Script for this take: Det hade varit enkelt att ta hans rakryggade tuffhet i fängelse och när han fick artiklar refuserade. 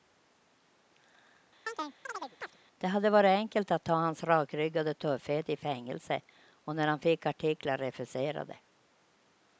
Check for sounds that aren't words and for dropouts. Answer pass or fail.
fail